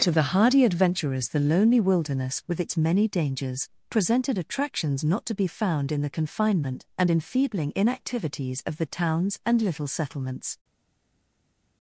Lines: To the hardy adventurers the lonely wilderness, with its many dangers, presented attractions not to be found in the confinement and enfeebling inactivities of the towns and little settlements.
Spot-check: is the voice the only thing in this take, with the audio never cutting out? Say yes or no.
yes